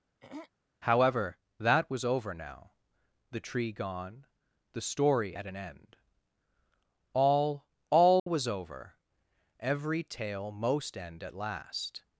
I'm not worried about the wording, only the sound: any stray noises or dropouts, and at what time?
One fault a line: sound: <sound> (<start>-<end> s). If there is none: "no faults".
sound: throat clearing (0.2-0.5 s)
sound: dropout (8.2-8.3 s)